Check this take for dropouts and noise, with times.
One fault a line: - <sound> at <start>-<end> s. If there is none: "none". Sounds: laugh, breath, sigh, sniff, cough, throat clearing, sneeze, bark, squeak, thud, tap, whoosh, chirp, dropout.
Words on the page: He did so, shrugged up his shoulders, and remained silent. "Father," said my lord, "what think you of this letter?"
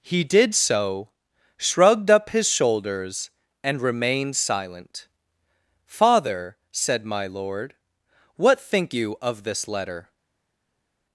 none